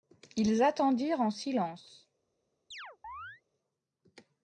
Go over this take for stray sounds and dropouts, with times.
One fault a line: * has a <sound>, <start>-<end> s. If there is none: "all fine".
* has a chirp, 2.7-3.4 s